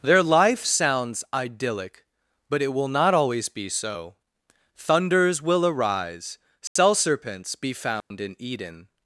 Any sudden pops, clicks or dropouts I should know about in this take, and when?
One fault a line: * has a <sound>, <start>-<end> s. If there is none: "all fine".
* has a dropout, 6.7-6.8 s
* has a dropout, 8.0-8.1 s